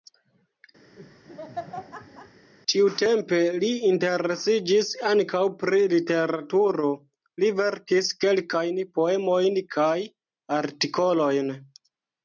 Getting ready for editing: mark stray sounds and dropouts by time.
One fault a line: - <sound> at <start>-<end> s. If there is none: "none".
- laugh at 1.0-2.5 s